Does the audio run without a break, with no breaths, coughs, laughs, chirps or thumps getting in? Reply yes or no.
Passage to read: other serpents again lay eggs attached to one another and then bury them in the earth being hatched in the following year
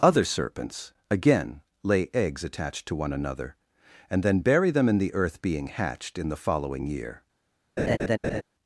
no